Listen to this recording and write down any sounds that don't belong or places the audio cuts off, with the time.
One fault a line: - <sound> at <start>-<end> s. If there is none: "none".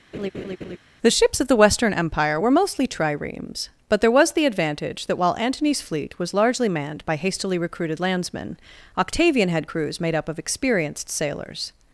- laugh at 0.1-0.8 s